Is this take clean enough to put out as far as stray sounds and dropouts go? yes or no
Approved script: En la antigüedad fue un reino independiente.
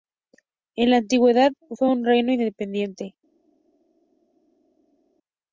yes